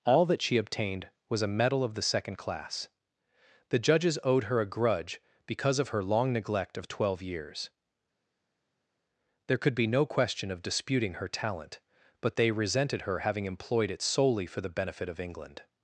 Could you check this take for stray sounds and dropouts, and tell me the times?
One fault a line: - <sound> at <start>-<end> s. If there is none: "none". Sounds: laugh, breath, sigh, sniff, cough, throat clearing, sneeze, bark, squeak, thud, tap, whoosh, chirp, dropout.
none